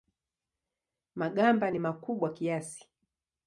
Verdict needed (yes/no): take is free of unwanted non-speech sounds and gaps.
yes